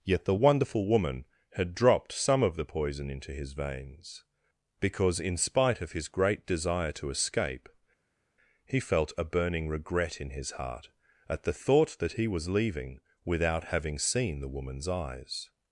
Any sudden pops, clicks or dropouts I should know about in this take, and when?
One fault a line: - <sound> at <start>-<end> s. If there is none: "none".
none